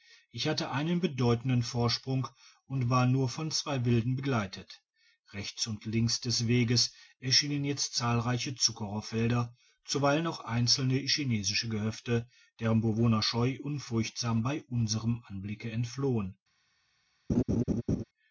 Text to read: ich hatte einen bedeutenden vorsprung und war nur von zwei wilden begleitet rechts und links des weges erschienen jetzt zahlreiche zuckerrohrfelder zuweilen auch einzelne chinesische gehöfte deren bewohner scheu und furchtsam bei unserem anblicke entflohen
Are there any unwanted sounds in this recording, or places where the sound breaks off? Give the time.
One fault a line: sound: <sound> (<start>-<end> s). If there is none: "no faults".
sound: laugh (17.3-18.0 s)